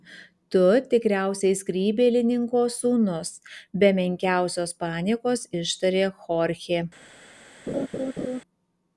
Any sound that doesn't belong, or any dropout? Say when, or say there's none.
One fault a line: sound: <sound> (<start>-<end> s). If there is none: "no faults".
sound: laugh (7.7-8.4 s)